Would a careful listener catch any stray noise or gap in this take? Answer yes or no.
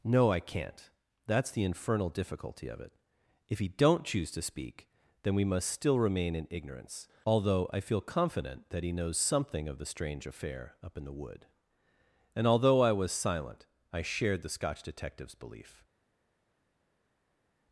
no